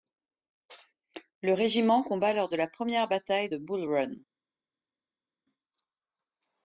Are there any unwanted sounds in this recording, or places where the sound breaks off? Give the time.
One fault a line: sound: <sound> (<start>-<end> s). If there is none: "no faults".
no faults